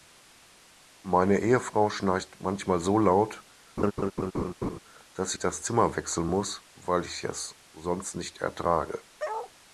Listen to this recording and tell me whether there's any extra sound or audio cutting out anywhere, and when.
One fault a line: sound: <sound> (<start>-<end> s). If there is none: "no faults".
sound: laugh (3.8-4.8 s)
sound: bark (9.2-9.5 s)